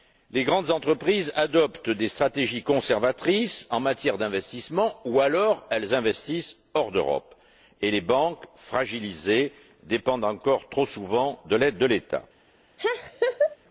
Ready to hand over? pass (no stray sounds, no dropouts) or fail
fail